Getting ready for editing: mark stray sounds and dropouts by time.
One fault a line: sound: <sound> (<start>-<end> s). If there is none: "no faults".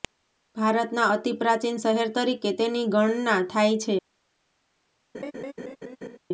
sound: laugh (5.1-6.2 s)